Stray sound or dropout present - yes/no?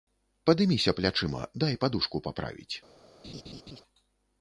yes